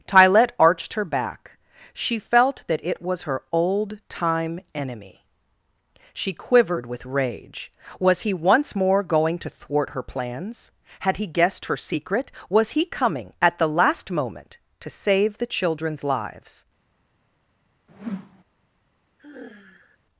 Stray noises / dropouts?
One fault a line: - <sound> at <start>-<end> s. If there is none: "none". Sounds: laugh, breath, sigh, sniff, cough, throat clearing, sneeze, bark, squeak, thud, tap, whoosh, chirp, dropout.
- whoosh at 17.9-18.4 s
- sigh at 19.2-20.0 s